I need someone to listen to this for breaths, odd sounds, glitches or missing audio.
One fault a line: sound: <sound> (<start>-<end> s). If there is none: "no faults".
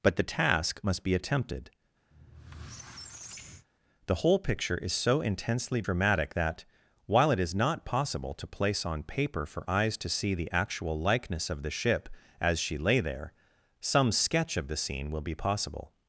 sound: squeak (2.1-3.7 s)